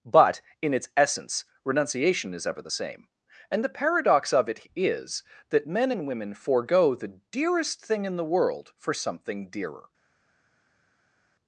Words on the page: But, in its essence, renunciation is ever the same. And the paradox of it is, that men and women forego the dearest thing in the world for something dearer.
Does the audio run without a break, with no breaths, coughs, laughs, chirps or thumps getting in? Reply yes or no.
yes